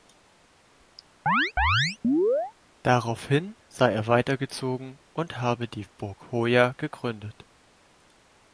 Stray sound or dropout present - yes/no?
yes